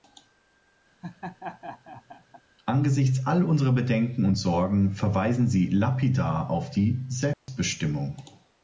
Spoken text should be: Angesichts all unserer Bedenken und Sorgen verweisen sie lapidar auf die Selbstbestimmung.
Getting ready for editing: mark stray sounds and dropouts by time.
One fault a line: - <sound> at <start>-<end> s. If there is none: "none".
- laugh at 1.0-2.4 s
- dropout at 7.3-7.5 s